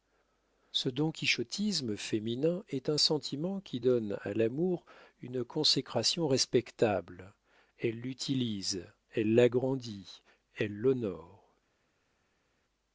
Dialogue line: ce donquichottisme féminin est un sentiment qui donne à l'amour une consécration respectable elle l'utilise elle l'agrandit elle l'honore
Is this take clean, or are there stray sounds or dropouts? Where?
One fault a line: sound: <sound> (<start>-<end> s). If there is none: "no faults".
no faults